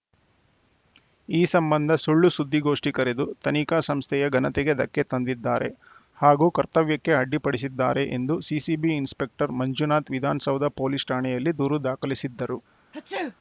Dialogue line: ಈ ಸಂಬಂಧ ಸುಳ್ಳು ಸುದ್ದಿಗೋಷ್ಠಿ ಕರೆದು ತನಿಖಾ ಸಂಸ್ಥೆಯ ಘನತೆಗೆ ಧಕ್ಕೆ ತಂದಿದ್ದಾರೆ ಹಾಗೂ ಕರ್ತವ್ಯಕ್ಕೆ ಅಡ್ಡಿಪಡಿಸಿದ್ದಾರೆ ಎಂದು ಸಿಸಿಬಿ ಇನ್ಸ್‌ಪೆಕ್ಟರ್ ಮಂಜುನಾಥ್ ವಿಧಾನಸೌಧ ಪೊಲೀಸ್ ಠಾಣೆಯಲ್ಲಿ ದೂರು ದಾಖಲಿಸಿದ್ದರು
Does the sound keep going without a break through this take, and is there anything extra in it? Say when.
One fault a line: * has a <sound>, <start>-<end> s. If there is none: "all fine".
* has a sneeze, 12.9-13.4 s